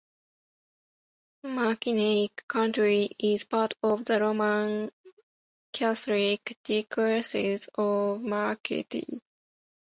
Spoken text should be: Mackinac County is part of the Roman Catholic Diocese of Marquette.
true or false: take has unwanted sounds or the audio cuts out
false